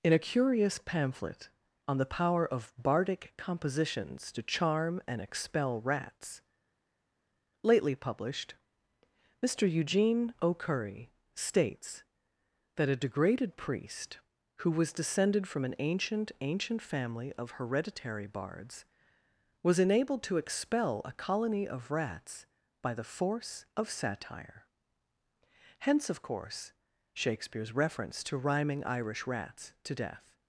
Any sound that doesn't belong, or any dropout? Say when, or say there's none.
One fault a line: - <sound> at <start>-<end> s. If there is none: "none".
none